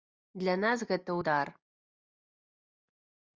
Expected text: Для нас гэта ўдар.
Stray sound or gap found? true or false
false